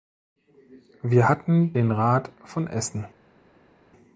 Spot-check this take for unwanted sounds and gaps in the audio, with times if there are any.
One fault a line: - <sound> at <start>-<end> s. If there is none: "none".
none